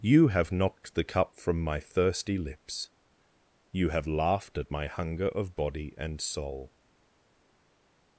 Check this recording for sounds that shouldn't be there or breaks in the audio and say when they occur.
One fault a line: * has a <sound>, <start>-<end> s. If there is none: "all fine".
all fine